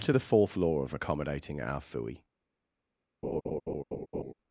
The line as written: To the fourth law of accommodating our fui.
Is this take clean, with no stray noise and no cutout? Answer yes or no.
no